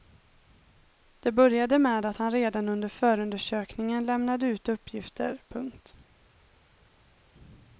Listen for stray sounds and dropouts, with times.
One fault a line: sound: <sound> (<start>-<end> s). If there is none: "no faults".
no faults